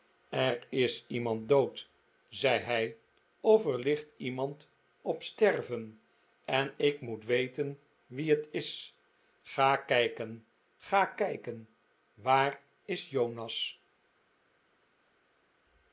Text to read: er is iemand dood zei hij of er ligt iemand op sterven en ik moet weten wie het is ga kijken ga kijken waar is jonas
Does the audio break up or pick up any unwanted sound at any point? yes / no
no